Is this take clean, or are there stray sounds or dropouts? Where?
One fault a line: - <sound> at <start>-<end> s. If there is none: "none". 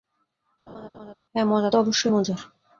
- laugh at 0.7-1.1 s